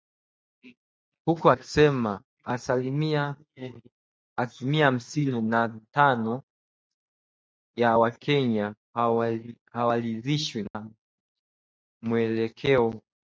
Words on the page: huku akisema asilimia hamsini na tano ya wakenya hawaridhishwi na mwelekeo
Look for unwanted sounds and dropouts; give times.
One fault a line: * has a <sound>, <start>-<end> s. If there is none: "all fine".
* has a dropout, 10.7-10.7 s